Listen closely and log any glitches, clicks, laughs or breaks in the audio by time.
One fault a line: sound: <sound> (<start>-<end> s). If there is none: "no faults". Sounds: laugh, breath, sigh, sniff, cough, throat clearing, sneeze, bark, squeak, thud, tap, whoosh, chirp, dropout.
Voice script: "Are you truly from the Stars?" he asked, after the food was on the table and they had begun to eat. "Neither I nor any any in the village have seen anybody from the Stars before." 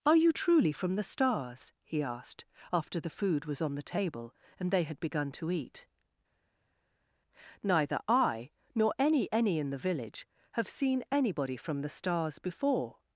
no faults